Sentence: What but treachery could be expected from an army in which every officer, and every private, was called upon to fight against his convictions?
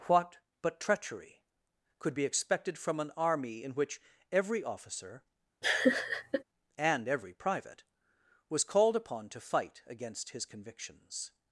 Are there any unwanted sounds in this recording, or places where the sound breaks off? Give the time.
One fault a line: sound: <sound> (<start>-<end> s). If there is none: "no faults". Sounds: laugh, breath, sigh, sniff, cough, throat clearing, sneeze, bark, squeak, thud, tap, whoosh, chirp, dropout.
sound: laugh (5.6-6.4 s)